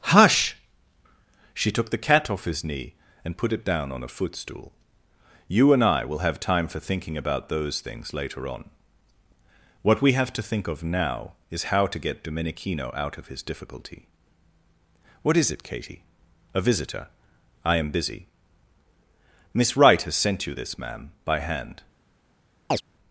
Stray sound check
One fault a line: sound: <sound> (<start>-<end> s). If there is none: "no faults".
sound: chirp (22.7-22.8 s)